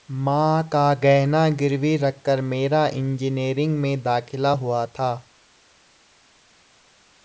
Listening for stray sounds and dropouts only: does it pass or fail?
pass